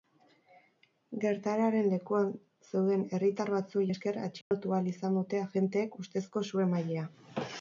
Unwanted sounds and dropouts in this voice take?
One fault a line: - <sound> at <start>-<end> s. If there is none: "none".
- dropout at 4.4-4.5 s